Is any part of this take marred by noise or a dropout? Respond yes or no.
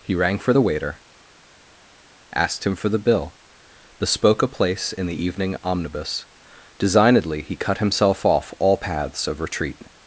no